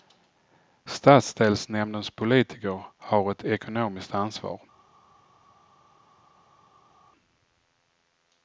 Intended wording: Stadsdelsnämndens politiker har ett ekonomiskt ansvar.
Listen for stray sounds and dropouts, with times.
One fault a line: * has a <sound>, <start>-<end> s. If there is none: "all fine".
all fine